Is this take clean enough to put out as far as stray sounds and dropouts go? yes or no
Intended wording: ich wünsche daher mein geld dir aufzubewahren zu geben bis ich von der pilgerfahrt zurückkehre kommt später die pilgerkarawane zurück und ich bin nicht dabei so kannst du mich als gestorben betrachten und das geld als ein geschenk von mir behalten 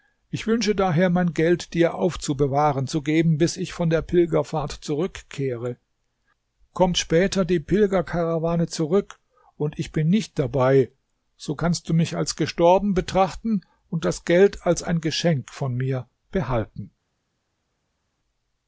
yes